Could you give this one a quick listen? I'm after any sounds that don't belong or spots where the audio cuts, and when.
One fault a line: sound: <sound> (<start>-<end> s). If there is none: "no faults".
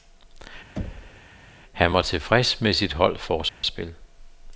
sound: thud (0.8-1.3 s)
sound: dropout (3.5-3.6 s)